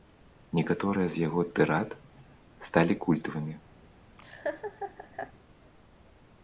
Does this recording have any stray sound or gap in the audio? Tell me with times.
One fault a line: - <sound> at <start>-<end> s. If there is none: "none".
- laugh at 4.2-5.3 s